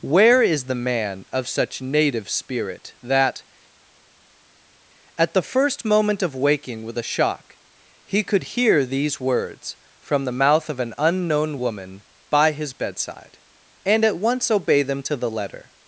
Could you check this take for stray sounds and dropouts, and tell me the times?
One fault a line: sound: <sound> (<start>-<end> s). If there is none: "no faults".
no faults